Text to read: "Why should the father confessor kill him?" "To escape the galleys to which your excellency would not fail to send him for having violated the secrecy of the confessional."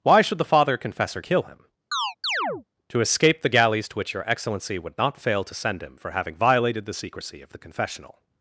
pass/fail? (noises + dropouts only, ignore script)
fail